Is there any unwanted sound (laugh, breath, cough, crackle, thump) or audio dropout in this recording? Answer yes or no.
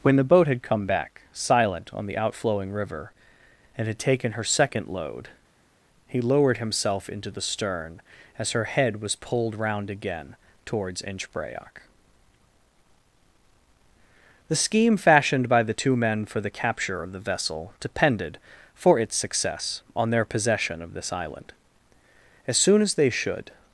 no